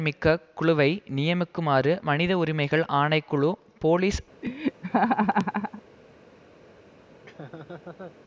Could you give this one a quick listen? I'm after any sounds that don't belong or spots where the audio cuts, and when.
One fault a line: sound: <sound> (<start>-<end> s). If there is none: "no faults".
sound: laugh (4.4-5.8 s)
sound: laugh (7.1-8.2 s)